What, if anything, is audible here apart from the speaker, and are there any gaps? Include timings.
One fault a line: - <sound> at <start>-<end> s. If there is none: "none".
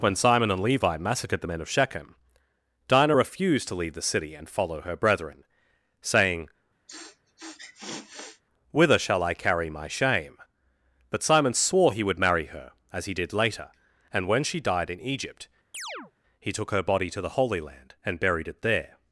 - sniff at 6.9-8.4 s
- chirp at 15.7-16.1 s